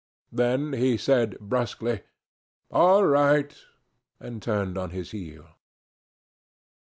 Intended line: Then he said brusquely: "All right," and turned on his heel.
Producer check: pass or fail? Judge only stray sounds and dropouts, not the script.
pass